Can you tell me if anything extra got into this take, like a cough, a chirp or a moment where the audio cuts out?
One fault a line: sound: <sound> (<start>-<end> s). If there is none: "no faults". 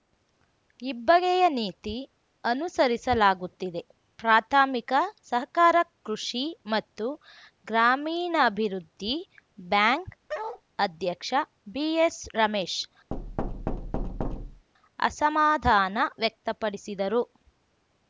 sound: bark (10.3-10.6 s)
sound: thud (13.1-14.7 s)